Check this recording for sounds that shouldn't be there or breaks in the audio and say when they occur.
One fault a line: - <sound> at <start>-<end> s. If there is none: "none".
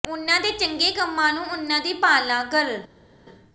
none